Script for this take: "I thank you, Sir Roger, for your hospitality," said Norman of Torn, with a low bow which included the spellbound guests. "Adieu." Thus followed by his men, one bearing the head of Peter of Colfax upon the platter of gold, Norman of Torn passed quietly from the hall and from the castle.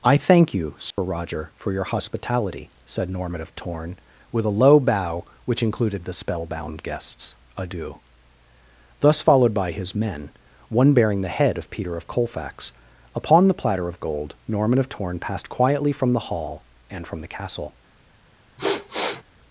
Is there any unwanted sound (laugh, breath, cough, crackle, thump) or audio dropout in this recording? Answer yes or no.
yes